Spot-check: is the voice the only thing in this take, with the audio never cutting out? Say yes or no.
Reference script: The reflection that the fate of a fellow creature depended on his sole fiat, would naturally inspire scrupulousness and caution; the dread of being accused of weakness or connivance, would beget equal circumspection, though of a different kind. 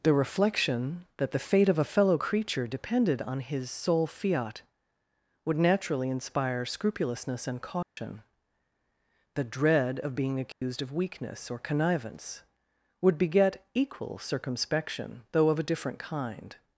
no